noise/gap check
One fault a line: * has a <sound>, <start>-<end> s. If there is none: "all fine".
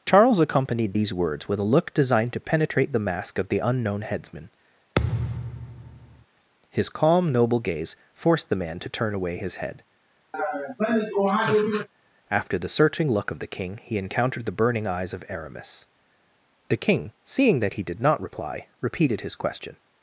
* has a thud, 5.0-6.3 s
* has a laugh, 10.3-11.9 s